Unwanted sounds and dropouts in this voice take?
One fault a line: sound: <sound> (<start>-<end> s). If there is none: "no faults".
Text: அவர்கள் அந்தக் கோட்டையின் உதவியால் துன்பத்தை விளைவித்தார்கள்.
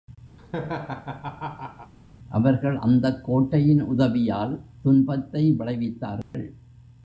sound: laugh (0.4-1.9 s)
sound: dropout (6.2-6.3 s)